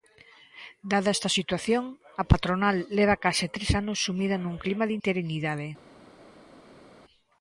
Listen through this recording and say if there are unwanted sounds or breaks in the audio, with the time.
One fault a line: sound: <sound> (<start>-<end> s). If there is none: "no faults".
no faults